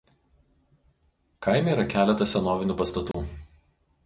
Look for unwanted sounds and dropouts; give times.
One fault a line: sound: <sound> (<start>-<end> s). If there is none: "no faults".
sound: dropout (3.1-3.1 s)